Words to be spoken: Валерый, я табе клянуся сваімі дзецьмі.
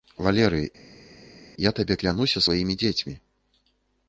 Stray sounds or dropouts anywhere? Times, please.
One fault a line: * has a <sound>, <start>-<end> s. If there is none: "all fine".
all fine